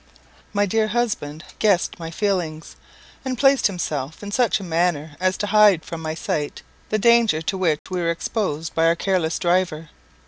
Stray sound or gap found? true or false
true